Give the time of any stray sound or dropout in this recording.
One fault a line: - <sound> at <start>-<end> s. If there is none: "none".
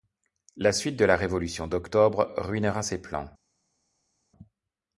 none